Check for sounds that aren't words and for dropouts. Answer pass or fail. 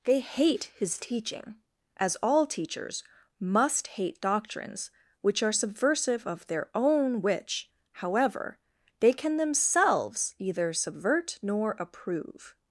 pass